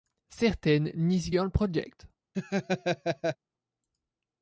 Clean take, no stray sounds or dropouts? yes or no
no